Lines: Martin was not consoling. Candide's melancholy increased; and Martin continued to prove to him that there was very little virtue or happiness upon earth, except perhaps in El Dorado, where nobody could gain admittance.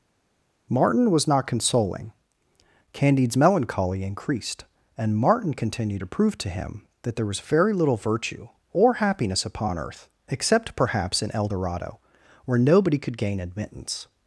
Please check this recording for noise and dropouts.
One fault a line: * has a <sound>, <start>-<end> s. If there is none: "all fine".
all fine